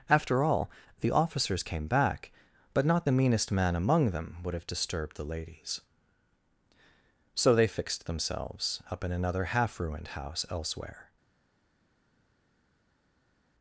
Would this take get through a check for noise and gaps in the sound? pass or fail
pass